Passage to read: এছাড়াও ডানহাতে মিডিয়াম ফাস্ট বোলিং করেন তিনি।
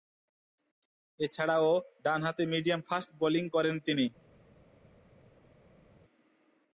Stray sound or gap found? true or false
false